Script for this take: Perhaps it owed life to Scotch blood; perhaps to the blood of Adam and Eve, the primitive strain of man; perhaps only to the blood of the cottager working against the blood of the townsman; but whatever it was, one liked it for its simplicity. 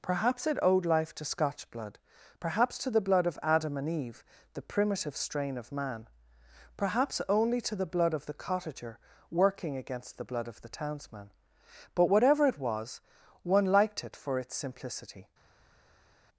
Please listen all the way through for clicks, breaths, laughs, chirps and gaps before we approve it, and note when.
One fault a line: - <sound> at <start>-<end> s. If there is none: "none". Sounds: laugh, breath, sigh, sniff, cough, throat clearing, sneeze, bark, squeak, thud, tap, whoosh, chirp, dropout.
none